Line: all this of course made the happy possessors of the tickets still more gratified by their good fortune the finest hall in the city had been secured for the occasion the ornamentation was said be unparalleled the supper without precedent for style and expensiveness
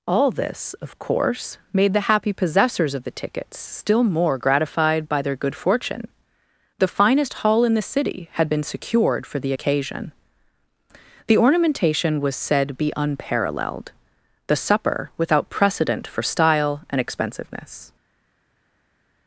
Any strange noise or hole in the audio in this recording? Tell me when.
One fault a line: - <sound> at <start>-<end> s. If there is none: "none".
none